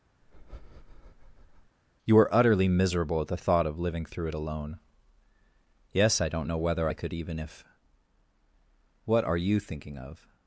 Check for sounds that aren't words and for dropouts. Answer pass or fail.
fail